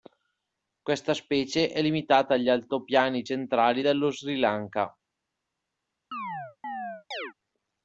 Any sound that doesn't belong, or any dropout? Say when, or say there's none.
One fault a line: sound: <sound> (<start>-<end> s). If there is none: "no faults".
sound: chirp (6.1-7.3 s)